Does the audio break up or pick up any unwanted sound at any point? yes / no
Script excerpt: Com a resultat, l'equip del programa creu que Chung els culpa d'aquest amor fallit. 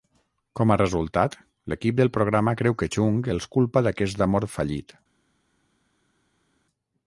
no